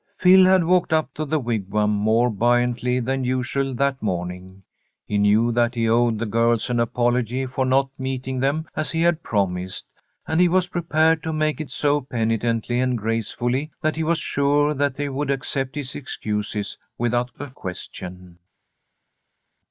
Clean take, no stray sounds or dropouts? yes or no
yes